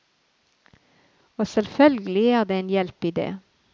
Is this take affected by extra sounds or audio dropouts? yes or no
no